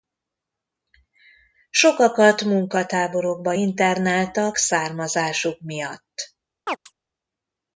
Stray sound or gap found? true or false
true